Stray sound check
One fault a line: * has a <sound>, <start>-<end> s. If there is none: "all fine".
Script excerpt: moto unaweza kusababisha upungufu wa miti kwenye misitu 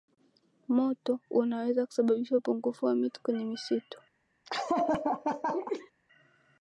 * has a laugh, 4.5-5.9 s